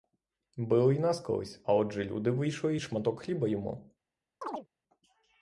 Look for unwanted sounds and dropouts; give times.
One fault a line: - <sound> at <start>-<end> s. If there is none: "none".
- chirp at 4.4-4.7 s